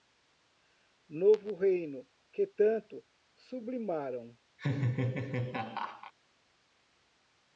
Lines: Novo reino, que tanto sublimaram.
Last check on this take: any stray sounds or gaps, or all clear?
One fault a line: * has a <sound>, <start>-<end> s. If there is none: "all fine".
* has a laugh, 4.6-6.1 s